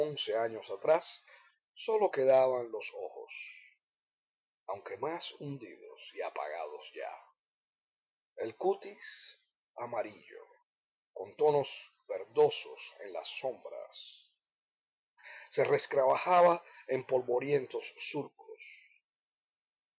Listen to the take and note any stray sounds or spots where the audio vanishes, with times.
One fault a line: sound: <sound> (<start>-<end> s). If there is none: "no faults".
no faults